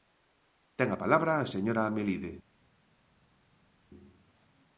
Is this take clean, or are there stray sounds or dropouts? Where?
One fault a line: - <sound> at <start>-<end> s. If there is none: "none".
none